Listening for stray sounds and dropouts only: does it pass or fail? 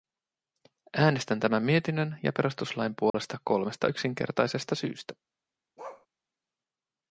fail